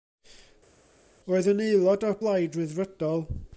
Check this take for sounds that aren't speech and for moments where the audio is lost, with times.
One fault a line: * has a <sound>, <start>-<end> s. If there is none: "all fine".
all fine